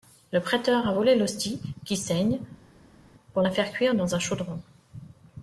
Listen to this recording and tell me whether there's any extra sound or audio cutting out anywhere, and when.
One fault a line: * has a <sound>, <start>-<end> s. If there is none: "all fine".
all fine